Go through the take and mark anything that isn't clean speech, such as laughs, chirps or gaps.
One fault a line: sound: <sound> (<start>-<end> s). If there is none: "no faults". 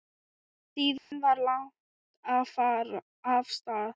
sound: dropout (1.0-1.1 s)